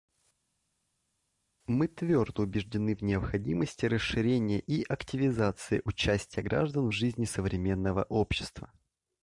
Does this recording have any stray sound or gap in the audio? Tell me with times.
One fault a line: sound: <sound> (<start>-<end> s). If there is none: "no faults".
no faults